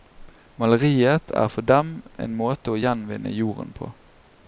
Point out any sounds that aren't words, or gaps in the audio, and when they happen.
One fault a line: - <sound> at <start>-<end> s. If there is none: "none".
none